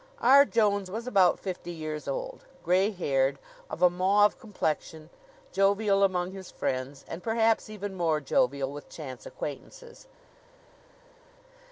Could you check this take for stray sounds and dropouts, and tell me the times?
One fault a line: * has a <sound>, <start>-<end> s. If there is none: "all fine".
all fine